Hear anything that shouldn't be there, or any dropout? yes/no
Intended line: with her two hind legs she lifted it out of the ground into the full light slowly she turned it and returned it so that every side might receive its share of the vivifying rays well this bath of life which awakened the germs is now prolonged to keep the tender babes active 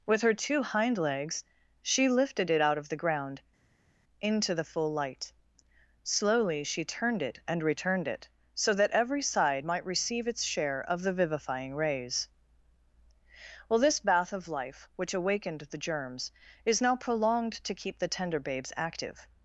no